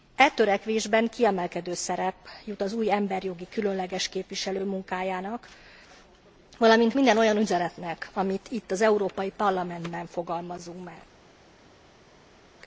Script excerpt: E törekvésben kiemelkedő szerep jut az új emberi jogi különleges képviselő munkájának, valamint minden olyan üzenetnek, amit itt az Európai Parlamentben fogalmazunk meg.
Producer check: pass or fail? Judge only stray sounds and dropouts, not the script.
pass